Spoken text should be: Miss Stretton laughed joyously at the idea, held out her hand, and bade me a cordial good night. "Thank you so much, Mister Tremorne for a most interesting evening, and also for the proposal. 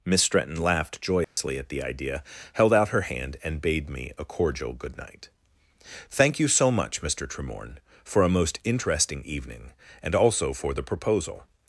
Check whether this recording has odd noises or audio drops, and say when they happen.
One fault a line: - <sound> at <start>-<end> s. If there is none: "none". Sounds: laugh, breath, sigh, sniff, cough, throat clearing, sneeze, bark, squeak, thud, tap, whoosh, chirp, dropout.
- dropout at 1.2-1.4 s